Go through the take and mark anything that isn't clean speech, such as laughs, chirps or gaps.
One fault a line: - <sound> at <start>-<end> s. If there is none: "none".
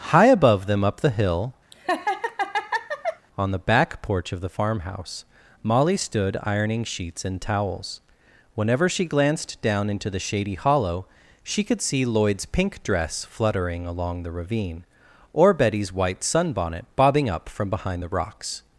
- laugh at 1.7-3.3 s